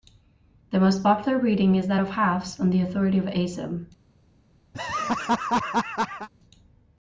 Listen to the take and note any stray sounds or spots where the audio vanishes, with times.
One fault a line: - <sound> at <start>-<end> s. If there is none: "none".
- laugh at 4.7-6.3 s